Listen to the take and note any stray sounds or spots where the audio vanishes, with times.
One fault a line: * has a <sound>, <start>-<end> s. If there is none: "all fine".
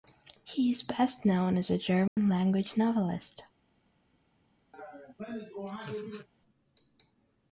* has a dropout, 2.1-2.2 s
* has a laugh, 4.7-6.3 s